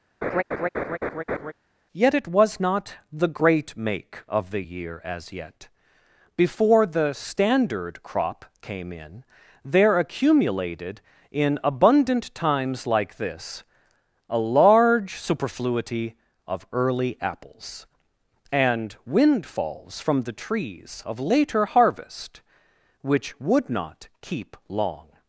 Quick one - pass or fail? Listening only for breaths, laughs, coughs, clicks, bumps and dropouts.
fail